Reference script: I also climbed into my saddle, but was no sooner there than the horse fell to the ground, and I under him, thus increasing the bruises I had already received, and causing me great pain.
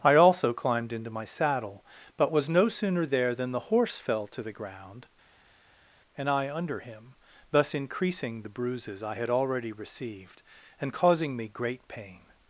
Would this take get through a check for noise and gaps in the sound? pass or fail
pass